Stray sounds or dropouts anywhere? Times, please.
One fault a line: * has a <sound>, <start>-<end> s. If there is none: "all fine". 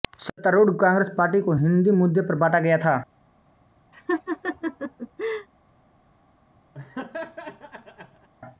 * has a laugh, 3.9-5.5 s
* has a laugh, 6.7-8.3 s